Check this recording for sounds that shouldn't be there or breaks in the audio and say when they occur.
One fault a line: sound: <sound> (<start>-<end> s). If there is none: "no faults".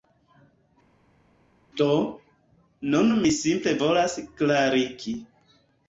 no faults